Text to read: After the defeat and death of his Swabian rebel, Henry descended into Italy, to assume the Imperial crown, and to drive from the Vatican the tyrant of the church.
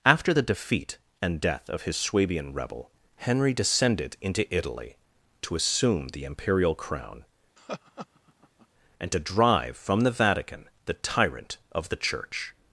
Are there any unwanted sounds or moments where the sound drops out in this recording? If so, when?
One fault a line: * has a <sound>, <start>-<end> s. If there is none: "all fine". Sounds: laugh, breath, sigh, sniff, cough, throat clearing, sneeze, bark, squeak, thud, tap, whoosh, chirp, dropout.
* has a laugh, 7.6-8.7 s